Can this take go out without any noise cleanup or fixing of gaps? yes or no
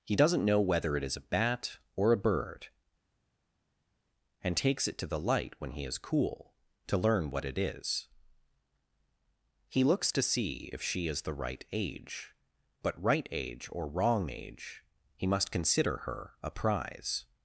yes